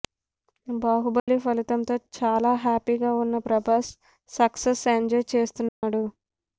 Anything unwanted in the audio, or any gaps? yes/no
yes